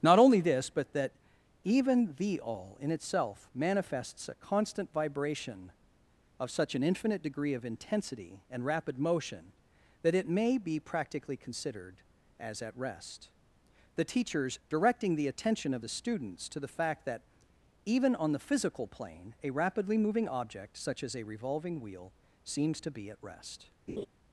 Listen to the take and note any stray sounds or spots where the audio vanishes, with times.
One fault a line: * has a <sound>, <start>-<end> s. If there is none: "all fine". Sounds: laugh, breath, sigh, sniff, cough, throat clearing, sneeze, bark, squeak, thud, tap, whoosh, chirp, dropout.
* has a laugh, 23.9-24.1 s